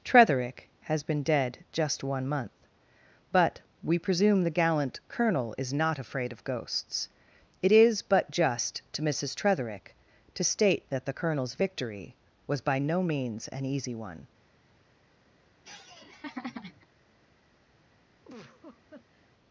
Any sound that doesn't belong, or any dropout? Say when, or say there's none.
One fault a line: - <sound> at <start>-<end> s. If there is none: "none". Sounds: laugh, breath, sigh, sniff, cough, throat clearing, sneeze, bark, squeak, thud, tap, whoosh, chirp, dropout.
- laugh at 15.6-16.9 s
- laugh at 18.2-19.3 s